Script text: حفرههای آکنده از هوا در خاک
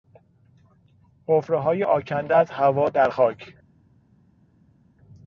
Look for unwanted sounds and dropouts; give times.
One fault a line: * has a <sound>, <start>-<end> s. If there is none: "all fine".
all fine